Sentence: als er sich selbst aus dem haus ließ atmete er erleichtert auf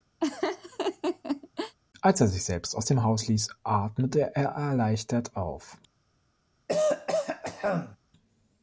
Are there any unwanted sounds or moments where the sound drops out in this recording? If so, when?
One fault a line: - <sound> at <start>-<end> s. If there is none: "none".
- laugh at 0.2-1.8 s
- throat clearing at 6.7-8.0 s